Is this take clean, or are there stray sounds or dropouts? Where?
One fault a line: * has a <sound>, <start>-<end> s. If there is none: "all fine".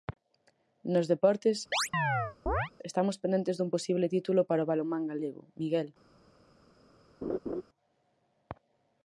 * has a chirp, 1.7-2.7 s
* has a laugh, 7.2-7.6 s